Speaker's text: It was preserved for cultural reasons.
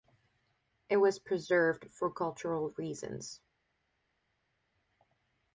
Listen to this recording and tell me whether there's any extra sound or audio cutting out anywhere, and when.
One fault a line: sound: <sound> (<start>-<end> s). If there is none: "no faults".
no faults